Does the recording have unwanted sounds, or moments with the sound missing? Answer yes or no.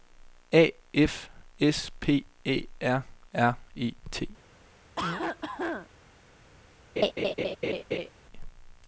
yes